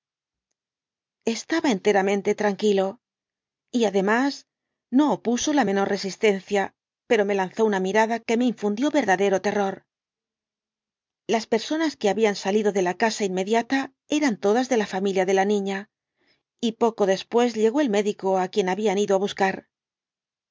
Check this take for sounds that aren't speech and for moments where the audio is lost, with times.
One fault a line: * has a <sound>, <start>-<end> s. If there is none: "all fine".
all fine